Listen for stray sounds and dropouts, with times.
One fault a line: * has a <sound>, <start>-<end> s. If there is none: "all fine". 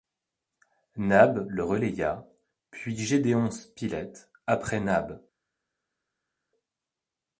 all fine